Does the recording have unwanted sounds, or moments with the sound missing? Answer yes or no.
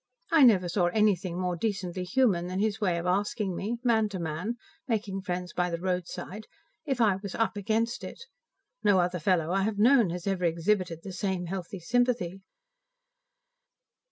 no